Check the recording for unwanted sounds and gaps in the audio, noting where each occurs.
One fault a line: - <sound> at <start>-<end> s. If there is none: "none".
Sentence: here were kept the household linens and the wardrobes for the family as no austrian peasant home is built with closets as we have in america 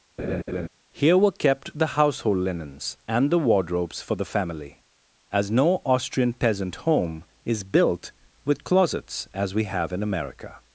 - laugh at 0.2-0.7 s